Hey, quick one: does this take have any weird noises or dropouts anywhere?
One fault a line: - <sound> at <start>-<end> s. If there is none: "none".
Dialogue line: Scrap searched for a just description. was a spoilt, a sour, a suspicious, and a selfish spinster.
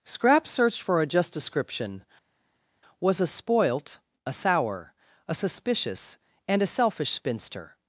none